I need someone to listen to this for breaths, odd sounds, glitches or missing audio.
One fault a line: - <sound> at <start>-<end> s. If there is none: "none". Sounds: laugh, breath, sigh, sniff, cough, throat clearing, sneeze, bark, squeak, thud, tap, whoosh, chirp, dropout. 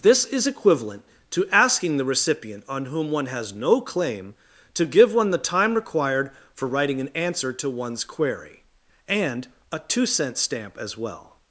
none